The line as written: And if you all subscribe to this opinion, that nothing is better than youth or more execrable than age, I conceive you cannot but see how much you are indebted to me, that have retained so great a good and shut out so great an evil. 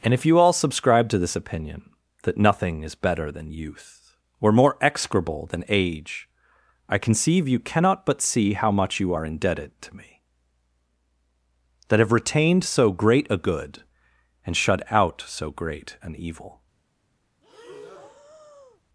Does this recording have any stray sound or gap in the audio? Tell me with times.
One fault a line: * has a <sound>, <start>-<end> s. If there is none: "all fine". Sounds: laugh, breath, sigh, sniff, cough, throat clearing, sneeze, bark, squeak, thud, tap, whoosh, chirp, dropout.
* has a breath, 17.4-18.8 s